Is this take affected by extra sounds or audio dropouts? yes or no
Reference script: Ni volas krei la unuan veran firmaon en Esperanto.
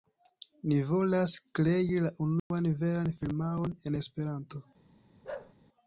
yes